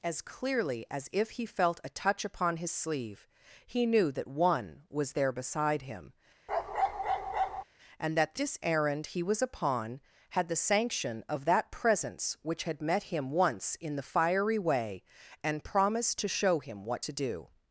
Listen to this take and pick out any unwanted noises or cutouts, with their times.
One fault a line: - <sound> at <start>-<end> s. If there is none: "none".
- bark at 6.5-7.6 s